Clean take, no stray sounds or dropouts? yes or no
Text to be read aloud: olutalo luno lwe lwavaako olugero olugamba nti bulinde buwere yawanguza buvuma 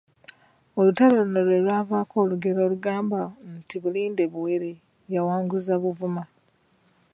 yes